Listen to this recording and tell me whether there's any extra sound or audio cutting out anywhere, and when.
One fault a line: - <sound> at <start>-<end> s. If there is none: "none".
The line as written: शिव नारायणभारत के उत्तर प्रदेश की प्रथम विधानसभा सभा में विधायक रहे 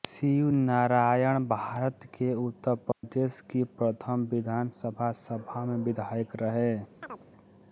- dropout at 2.9-3.0 s
- chirp at 7.0-7.3 s